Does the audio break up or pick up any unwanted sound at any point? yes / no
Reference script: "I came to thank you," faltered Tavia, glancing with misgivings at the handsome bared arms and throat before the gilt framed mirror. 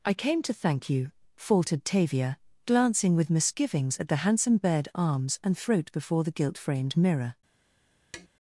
yes